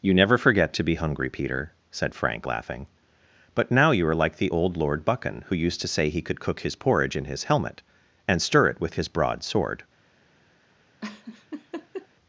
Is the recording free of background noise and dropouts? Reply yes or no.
no